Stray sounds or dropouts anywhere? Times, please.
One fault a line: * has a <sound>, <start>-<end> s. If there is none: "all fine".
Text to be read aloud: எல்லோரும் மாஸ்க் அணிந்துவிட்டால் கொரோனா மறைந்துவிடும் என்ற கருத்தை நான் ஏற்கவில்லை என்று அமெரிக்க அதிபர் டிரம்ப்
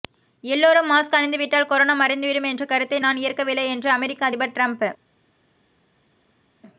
all fine